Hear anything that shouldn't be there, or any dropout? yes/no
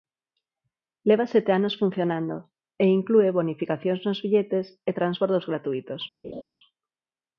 yes